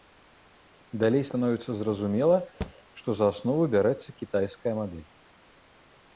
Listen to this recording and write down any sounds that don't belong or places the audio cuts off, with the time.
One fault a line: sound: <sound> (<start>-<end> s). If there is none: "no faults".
sound: thud (2.6-2.7 s)